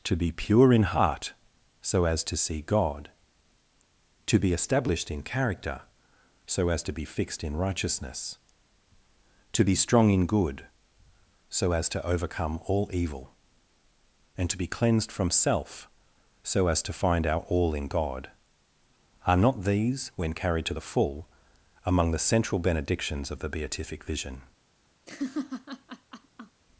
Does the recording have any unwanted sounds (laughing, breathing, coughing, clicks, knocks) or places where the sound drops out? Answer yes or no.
yes